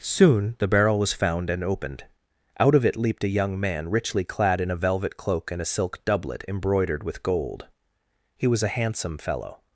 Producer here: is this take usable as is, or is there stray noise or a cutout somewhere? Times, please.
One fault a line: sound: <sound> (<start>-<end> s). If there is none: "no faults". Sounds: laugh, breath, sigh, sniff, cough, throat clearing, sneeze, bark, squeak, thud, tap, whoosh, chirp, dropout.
no faults